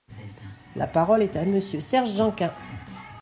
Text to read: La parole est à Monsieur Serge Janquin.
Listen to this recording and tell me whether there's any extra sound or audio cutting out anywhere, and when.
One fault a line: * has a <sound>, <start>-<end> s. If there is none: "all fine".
all fine